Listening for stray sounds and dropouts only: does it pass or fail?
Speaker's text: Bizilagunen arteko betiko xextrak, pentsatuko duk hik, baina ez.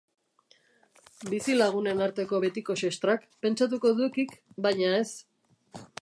pass